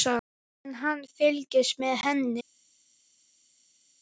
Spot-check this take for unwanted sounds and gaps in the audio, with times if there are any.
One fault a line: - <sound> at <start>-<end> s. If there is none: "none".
none